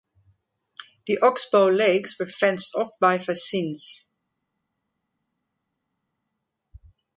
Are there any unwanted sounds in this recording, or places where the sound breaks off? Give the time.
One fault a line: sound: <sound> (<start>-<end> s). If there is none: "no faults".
no faults